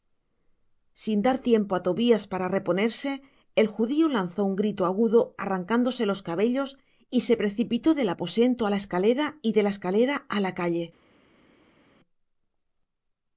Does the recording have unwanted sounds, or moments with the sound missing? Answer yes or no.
no